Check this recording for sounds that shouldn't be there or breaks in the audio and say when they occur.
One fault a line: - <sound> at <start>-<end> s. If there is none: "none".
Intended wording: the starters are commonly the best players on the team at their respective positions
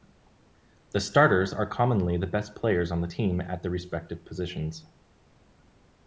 none